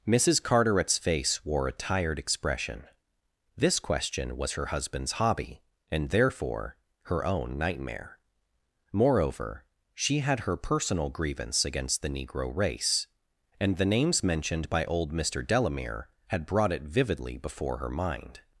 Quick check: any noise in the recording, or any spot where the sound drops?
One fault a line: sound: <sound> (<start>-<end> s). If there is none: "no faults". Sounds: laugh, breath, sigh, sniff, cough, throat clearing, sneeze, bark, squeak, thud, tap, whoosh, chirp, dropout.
no faults